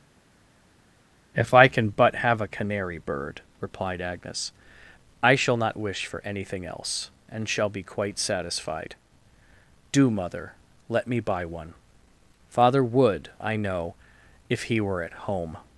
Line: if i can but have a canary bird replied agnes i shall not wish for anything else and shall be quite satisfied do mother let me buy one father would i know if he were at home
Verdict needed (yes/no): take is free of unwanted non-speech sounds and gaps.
yes